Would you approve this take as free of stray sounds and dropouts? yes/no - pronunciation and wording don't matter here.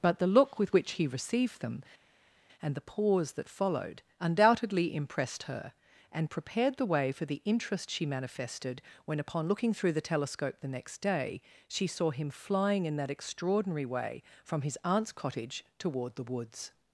yes